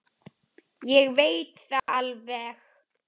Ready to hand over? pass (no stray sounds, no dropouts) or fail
fail